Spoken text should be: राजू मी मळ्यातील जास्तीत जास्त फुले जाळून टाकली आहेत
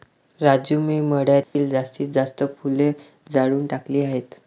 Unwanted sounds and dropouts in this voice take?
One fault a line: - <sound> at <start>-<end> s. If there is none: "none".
- dropout at 1.4-1.5 s